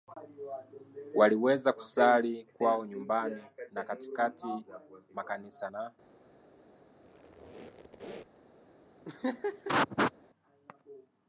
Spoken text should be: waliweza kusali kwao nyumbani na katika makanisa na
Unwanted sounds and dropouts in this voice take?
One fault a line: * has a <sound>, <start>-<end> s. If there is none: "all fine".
* has a squeak, 7.0-8.4 s
* has a laugh, 9.0-10.1 s